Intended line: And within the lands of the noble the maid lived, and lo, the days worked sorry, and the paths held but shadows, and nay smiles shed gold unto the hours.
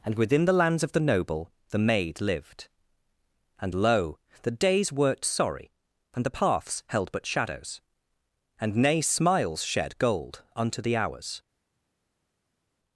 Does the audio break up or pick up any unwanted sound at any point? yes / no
no